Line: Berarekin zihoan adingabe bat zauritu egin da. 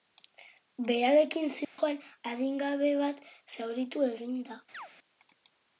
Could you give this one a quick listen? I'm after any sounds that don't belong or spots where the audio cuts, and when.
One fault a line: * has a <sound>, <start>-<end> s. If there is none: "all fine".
* has a dropout, 1.6-1.8 s
* has a chirp, 4.7-4.9 s